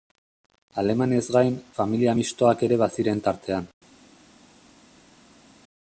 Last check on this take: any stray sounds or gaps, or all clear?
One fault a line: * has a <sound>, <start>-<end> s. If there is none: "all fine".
all fine